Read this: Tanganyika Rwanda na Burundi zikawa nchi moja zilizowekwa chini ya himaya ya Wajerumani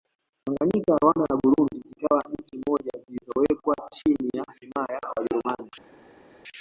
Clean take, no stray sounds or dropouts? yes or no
yes